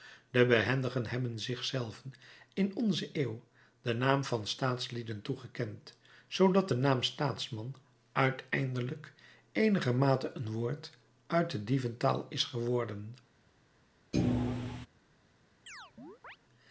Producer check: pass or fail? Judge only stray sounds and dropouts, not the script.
fail